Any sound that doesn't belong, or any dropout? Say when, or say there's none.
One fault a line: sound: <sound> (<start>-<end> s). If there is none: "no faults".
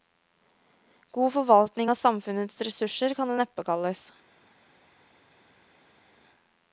no faults